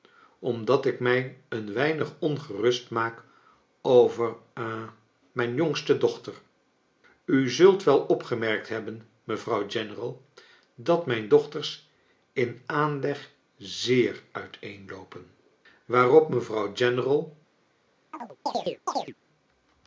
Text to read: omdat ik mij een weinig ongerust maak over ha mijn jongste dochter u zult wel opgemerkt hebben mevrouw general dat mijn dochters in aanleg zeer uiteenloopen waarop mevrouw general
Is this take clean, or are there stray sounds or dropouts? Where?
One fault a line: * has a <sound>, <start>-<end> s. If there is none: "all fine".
* has a chirp, 18.1-19.1 s